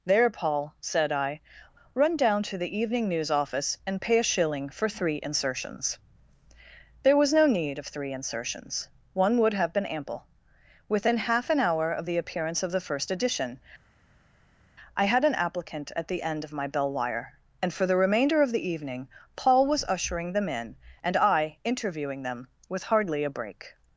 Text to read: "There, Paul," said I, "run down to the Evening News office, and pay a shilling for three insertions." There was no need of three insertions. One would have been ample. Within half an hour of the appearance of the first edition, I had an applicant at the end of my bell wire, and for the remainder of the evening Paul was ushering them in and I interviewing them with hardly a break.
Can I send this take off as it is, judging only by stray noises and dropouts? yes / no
yes